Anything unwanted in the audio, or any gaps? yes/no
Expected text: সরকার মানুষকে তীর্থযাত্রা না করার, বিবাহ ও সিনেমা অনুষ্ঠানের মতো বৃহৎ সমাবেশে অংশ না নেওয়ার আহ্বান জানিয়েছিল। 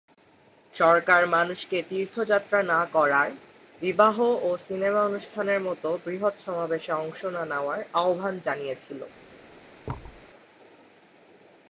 yes